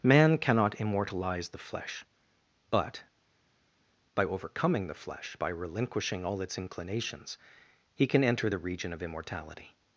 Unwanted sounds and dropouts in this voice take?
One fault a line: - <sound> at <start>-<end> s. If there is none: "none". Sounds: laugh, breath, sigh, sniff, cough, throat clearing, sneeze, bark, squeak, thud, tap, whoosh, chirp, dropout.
none